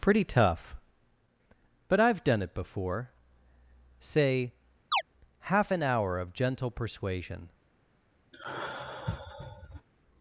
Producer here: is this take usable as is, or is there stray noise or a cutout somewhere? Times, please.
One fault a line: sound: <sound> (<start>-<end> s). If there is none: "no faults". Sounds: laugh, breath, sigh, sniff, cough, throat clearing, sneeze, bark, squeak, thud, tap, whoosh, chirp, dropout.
sound: chirp (4.9-5.0 s)
sound: sigh (8.3-9.9 s)